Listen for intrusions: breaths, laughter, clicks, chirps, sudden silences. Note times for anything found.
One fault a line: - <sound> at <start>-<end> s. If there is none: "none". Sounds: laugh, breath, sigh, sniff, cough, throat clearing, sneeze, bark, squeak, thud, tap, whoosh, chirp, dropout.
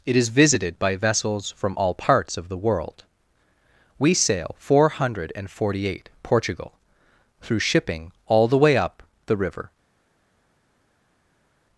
none